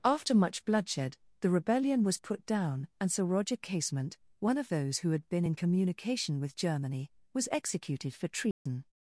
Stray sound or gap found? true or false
true